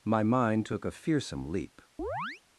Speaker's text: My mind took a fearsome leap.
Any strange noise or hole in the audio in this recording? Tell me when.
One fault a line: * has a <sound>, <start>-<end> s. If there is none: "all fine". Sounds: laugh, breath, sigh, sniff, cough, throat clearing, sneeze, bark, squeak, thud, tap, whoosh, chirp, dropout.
* has a chirp, 2.0-2.4 s